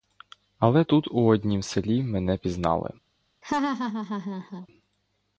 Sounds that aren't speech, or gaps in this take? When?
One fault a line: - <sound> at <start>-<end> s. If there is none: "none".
- laugh at 3.4-4.7 s